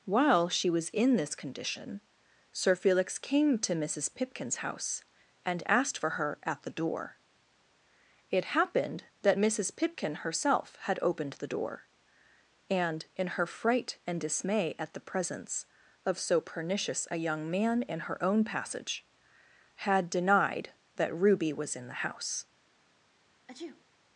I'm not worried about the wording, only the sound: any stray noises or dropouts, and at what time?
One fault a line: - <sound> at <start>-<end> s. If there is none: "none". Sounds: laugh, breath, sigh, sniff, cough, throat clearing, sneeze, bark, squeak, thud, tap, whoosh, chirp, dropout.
- sneeze at 23.5-23.8 s